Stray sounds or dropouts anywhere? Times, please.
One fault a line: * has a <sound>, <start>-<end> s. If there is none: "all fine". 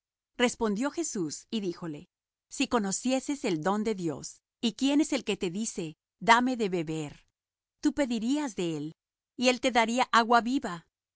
all fine